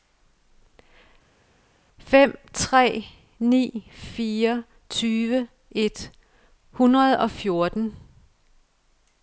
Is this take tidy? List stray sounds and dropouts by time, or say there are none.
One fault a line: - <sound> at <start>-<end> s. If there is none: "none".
none